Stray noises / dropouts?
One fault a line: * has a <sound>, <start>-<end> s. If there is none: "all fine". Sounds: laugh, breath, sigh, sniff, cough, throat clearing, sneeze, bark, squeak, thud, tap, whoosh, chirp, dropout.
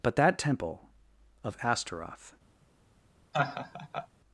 * has a laugh, 3.3-4.1 s